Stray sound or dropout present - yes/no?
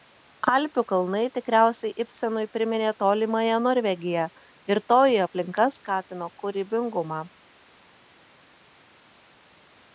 no